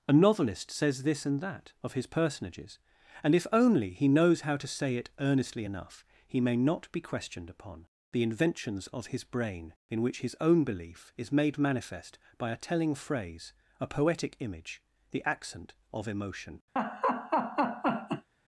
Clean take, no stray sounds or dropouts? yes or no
no